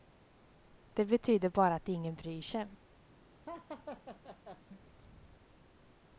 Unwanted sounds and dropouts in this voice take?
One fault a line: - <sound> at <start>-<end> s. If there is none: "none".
- laugh at 3.5-4.6 s